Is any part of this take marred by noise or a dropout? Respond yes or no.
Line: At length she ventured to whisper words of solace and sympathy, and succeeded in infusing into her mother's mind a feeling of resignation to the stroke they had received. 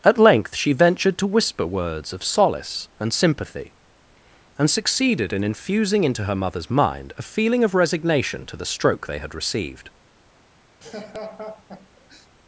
yes